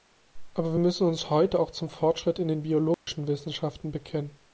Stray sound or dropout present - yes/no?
yes